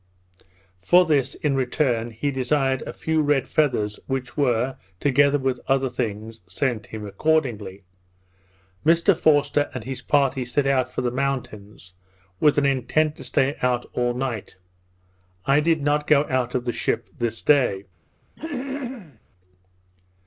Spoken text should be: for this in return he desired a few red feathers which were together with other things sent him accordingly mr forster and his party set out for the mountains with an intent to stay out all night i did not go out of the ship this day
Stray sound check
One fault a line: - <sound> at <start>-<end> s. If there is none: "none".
- throat clearing at 18.4-19.2 s